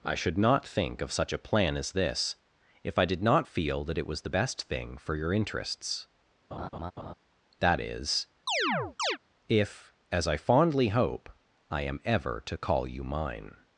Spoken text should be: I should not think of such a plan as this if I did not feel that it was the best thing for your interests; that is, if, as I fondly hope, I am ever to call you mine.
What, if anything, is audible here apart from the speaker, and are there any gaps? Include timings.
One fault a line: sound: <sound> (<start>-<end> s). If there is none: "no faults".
sound: laugh (6.5-7.1 s)
sound: chirp (8.5-9.2 s)